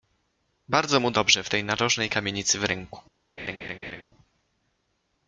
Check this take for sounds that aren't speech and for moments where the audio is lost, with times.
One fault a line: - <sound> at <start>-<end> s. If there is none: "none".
- laugh at 3.4-4.0 s